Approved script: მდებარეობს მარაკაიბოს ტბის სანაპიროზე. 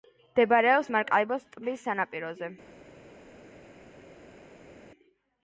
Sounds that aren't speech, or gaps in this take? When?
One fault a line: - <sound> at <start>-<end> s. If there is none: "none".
none